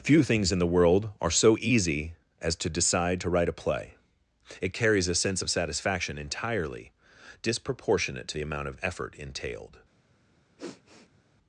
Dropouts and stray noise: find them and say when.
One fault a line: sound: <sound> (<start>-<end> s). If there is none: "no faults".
sound: sniff (10.6-11.2 s)